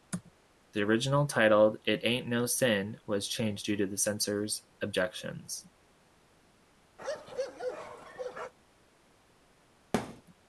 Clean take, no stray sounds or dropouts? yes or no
no